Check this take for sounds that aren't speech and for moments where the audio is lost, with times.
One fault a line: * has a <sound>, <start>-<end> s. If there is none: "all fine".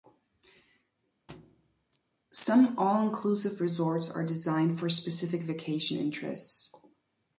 * has a thud, 1.3-2.0 s